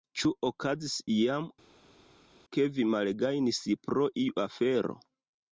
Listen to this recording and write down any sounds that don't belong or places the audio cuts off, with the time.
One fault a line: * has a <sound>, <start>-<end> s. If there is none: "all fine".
all fine